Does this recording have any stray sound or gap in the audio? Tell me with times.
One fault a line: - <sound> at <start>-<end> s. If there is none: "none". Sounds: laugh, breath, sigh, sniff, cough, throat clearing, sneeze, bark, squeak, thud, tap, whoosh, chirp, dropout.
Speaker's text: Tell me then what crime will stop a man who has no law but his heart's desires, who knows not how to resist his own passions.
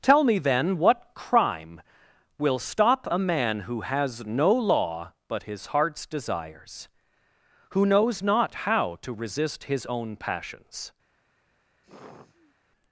- sigh at 11.8-12.6 s